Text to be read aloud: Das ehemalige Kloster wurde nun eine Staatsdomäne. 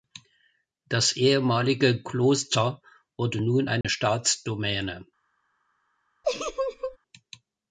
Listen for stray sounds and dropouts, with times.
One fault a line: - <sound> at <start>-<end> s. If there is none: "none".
- dropout at 3.8-3.8 s
- laugh at 6.2-7.0 s